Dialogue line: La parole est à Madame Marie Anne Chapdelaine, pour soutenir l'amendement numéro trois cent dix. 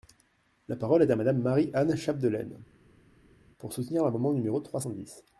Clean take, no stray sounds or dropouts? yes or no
yes